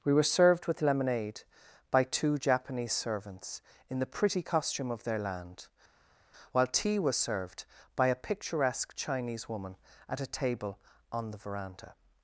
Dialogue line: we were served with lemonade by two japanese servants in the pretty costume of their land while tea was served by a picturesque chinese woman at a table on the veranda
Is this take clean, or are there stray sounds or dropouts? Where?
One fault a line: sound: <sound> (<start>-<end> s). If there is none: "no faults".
no faults